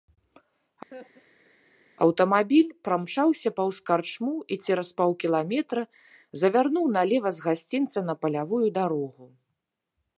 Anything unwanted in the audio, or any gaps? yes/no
yes